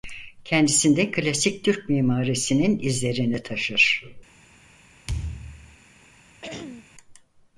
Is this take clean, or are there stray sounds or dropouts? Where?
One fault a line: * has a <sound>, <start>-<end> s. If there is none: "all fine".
* has a thud, 5.1-5.8 s
* has a throat clearing, 6.4-6.9 s